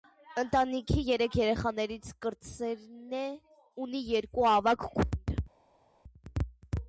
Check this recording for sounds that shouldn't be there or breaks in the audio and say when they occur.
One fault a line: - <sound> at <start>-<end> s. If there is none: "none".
none